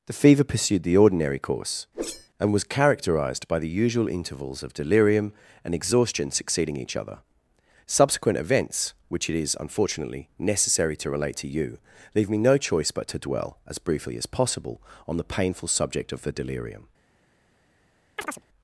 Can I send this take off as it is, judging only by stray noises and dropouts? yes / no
no